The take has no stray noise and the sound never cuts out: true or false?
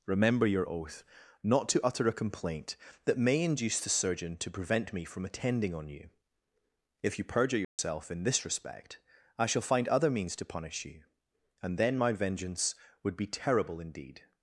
false